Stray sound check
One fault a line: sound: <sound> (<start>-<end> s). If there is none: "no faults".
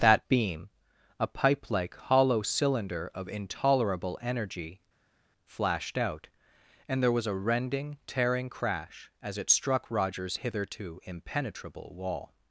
no faults